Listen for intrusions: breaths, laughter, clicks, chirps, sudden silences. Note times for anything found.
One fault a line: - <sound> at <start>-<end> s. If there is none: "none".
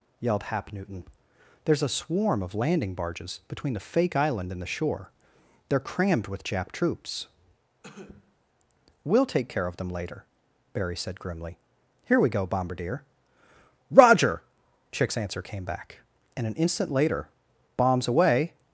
- cough at 7.8-8.4 s